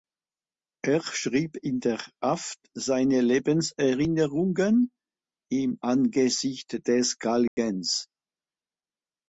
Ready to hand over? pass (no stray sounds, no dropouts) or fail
fail